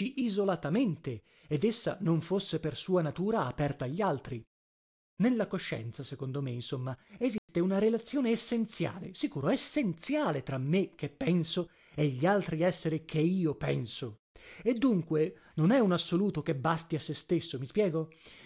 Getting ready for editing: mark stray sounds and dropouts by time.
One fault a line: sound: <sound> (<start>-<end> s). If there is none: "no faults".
sound: dropout (7.4-7.5 s)